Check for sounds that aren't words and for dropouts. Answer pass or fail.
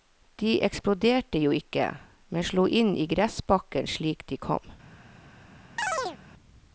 fail